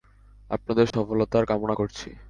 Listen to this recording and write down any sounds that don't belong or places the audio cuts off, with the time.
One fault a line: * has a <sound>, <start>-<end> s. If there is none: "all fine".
* has a dropout, 0.9-0.9 s